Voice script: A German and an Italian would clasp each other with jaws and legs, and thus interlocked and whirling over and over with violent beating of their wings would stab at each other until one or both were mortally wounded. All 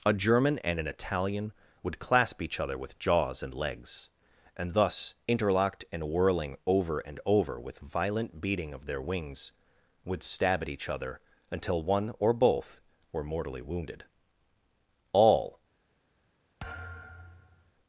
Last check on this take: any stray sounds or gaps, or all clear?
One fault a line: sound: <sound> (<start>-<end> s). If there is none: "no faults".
sound: thud (16.6-17.7 s)